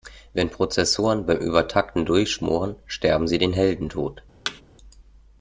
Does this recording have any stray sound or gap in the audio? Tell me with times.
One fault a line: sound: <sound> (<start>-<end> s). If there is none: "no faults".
sound: thud (4.5-4.6 s)